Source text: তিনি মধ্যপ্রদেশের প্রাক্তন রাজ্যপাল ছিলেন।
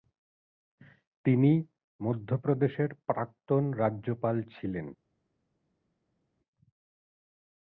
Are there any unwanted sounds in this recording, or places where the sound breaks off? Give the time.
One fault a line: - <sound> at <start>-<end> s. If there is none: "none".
none